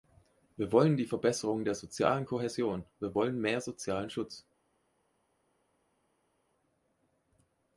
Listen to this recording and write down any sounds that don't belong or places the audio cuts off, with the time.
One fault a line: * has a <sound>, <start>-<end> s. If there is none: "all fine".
all fine